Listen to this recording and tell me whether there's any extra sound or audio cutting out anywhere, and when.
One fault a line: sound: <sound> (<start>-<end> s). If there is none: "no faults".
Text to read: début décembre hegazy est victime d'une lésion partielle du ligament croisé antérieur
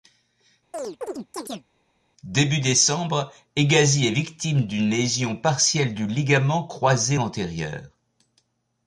sound: chirp (0.7-1.7 s)